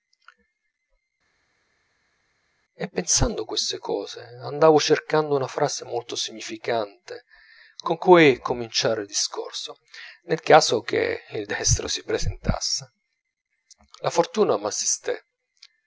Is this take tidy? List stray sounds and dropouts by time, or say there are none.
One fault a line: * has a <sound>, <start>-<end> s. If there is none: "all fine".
all fine